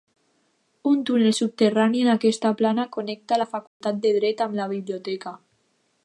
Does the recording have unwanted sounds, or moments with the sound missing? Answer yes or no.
yes